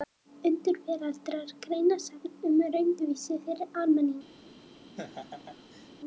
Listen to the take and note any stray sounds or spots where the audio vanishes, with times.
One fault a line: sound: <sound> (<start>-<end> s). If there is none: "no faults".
sound: laugh (5.0-5.9 s)